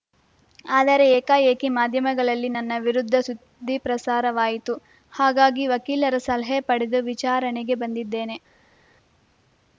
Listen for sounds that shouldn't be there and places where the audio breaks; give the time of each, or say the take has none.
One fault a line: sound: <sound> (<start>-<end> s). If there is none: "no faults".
no faults